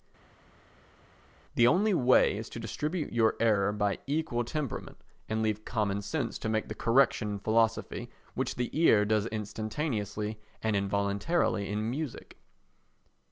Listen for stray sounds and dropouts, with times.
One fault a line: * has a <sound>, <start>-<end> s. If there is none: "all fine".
all fine